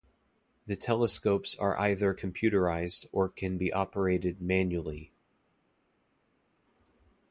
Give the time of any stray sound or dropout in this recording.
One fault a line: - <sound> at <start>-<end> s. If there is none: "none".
none